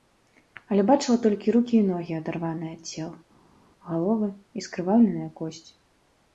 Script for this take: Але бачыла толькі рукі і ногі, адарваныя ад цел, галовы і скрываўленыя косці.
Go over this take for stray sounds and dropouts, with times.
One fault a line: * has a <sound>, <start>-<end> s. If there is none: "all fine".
all fine